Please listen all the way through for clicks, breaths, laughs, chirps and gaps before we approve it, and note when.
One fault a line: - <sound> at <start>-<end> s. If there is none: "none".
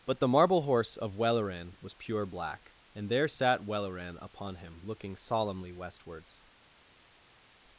none